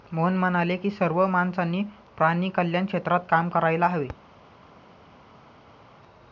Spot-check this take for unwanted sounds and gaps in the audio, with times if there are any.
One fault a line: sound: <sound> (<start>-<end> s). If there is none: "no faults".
no faults